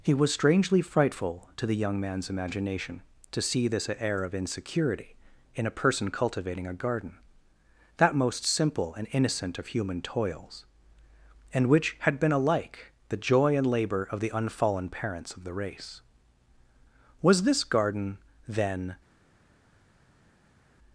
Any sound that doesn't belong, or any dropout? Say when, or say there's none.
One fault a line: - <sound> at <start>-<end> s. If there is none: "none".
none